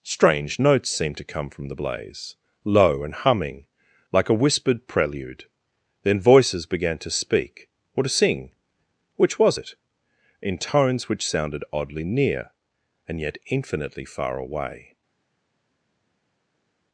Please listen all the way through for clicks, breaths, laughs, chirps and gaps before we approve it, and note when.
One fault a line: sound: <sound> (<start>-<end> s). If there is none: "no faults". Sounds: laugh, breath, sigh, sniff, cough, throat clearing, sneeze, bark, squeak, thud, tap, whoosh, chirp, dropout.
no faults